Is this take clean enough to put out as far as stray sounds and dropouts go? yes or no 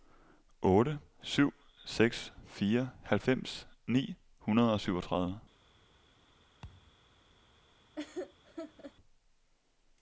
no